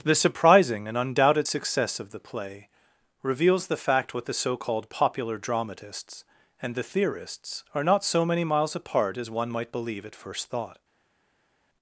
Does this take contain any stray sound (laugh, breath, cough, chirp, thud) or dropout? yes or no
no